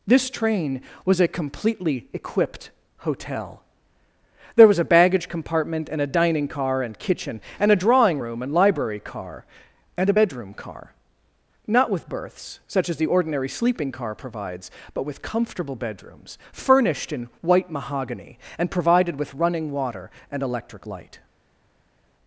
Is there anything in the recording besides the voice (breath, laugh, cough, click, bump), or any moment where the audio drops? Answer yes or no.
no